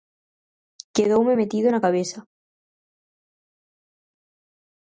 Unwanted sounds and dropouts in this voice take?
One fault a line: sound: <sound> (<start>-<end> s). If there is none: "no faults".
no faults